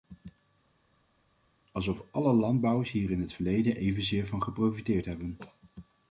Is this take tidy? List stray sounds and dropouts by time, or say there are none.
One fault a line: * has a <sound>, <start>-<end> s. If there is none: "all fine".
all fine